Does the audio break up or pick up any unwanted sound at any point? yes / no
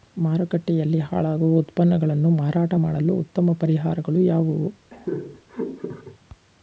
yes